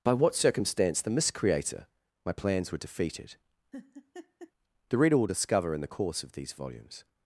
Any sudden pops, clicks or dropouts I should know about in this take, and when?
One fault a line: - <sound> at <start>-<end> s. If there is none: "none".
- laugh at 3.7-4.5 s